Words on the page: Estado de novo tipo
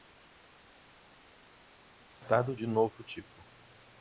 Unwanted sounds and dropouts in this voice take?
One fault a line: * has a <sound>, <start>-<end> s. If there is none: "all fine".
all fine